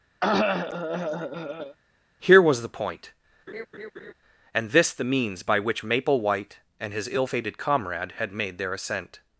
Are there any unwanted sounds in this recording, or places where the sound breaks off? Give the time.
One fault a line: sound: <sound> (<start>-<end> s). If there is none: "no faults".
sound: cough (0.2-1.8 s)
sound: laugh (3.5-4.1 s)